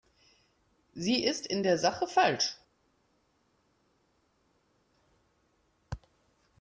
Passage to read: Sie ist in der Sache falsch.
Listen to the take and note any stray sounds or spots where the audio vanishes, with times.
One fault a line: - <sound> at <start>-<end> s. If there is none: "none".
none